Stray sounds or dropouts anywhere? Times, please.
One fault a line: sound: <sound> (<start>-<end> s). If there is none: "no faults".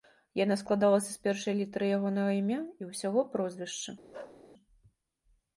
sound: bark (4.1-4.4 s)